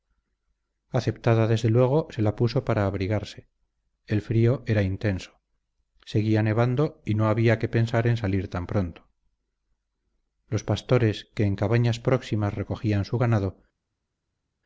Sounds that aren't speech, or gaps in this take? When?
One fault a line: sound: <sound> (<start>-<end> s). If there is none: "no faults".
no faults